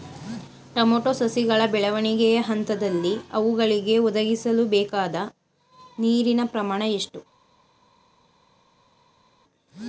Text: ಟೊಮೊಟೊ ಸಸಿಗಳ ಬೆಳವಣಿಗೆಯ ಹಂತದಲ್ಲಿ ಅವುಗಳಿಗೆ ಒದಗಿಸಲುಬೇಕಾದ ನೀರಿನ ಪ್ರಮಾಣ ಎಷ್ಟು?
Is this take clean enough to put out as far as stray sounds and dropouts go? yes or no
yes